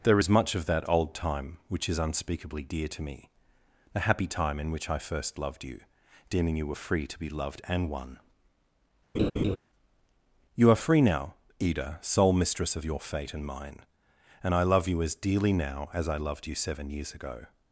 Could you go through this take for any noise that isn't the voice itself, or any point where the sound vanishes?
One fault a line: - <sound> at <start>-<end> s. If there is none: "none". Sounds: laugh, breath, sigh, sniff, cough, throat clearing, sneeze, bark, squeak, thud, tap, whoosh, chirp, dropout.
- laugh at 9.1-9.6 s